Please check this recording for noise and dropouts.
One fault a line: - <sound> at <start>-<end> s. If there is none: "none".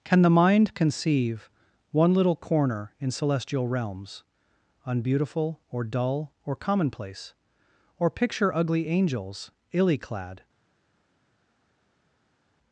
none